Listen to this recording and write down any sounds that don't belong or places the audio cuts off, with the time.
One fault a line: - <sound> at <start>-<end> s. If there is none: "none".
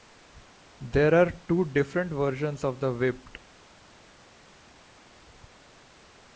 none